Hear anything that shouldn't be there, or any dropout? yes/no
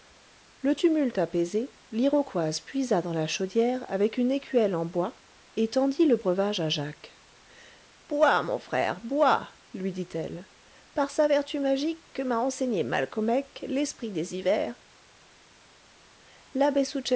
no